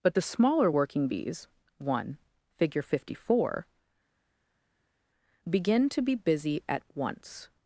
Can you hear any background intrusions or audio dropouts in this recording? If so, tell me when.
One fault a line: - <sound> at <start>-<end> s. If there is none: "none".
none